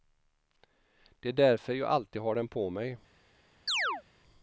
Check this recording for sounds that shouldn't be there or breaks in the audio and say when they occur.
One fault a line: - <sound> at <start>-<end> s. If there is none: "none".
- chirp at 3.7-4.0 s